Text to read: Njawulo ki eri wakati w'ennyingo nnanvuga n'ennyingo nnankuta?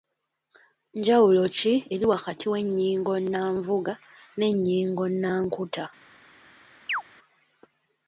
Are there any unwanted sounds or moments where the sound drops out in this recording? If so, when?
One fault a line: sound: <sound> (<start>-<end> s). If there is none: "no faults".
sound: chirp (6.9-7.0 s)